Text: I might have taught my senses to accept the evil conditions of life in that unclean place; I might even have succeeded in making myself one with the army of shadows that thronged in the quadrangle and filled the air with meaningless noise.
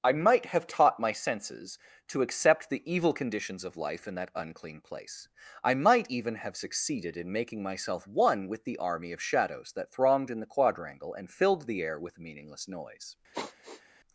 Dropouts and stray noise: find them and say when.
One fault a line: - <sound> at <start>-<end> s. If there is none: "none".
- sigh at 13.3-13.8 s